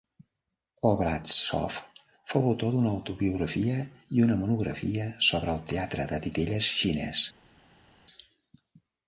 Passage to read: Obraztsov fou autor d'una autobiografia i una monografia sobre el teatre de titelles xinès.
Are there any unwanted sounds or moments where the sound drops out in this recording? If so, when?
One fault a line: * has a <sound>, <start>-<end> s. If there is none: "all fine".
all fine